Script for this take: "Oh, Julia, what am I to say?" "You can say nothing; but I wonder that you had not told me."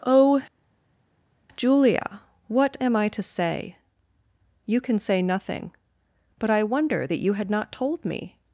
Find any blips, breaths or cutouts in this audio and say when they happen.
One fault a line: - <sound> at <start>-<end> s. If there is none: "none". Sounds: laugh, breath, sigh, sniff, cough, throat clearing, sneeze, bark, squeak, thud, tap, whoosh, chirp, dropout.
none